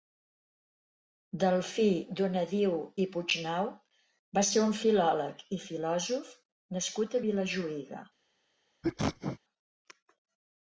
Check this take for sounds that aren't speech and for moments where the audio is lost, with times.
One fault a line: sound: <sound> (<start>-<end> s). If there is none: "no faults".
sound: sneeze (8.8-9.4 s)